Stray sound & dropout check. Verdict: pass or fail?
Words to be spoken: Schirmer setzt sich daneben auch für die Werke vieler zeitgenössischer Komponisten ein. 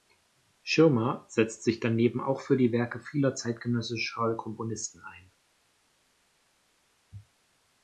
pass